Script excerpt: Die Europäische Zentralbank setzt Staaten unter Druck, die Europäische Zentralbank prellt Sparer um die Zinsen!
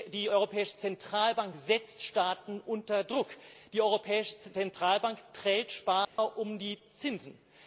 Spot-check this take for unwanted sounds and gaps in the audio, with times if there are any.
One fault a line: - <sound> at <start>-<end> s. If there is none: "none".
- dropout at 6.0-6.2 s